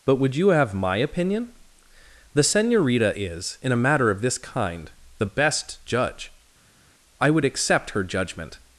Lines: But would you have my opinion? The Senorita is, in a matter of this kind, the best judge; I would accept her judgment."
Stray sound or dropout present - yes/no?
no